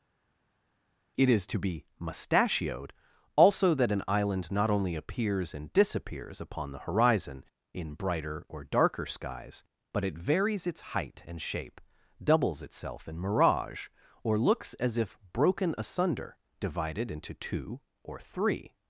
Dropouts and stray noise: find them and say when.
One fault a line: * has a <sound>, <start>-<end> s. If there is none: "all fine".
all fine